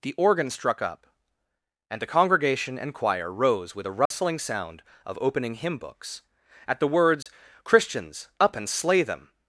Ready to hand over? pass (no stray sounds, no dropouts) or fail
fail